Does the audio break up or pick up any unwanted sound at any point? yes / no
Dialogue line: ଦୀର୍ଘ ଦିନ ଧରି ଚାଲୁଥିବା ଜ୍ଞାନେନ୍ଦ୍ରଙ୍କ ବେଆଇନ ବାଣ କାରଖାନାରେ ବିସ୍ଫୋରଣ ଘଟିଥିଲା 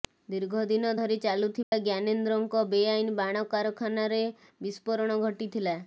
yes